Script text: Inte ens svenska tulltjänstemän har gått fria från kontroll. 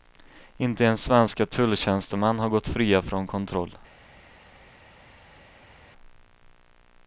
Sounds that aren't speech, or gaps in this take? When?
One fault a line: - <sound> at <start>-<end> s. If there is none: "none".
none